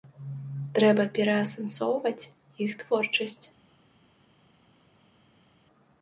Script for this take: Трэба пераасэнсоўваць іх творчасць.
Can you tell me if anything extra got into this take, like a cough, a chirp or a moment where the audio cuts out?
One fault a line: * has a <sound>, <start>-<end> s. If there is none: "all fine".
all fine